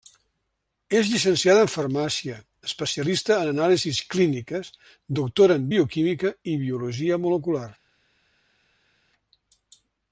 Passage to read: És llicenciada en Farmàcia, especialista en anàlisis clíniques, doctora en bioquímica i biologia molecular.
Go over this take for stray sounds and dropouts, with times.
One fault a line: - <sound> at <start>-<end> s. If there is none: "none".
none